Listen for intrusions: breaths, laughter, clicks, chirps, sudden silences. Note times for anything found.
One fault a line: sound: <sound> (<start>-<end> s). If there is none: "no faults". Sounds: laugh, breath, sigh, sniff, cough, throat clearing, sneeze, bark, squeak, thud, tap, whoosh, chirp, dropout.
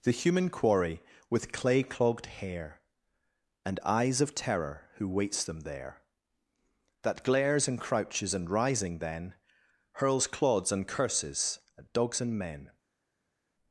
no faults